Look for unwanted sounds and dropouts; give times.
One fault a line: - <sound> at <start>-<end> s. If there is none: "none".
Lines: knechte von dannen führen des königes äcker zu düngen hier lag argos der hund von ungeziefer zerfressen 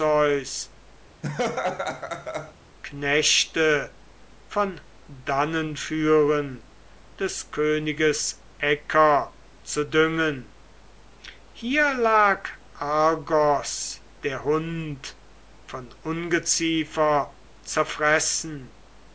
- laugh at 1.2-2.5 s